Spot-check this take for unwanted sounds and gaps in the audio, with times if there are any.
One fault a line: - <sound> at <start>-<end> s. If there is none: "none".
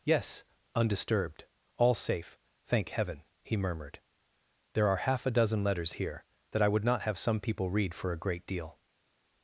none